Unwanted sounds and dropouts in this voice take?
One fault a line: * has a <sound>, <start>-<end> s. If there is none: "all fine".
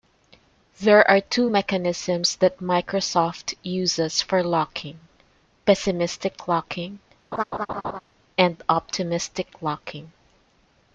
* has a laugh, 7.3-8.0 s